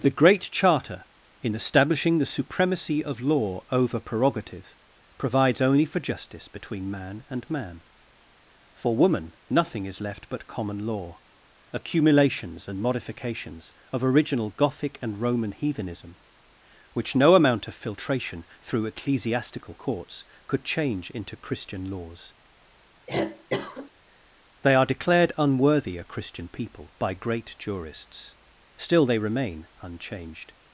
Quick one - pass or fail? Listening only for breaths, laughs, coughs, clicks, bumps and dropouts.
fail